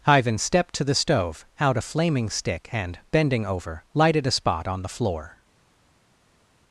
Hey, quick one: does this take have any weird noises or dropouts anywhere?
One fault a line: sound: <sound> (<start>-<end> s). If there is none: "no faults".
no faults